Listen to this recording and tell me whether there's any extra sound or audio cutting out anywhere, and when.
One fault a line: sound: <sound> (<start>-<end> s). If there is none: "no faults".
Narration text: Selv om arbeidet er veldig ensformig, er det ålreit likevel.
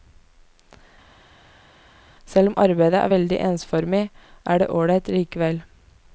no faults